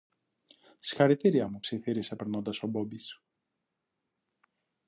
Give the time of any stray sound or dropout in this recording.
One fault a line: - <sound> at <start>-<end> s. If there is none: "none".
none